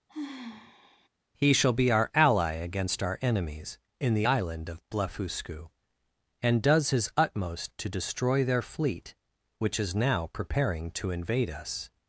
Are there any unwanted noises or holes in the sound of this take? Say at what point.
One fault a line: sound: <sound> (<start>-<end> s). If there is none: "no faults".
sound: sigh (0.1-1.1 s)